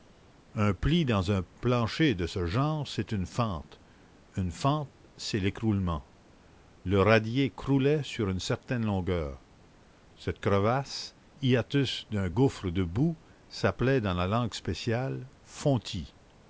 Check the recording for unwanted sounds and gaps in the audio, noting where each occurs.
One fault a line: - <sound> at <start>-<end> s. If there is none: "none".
none